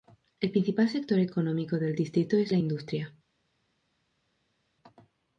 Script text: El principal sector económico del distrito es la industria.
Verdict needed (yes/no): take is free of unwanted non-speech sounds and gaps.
yes